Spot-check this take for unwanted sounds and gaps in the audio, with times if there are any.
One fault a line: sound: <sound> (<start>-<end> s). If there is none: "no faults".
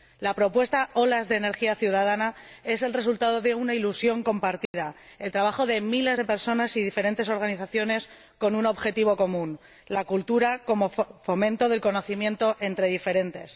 sound: dropout (4.7-4.7 s)